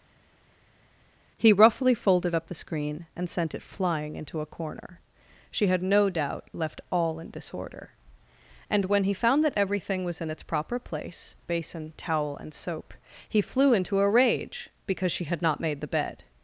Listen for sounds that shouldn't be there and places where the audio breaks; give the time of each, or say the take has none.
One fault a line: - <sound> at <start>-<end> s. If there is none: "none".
none